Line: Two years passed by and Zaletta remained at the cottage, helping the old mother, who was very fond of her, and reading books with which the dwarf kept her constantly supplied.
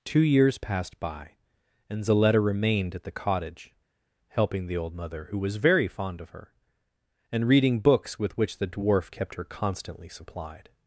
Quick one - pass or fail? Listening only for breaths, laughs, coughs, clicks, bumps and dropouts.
pass